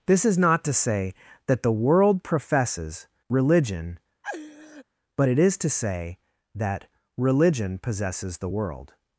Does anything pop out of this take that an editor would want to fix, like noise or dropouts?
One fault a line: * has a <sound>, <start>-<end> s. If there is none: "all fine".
* has a laugh, 4.2-4.8 s